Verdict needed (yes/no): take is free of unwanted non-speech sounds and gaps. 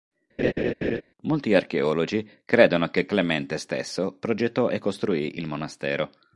no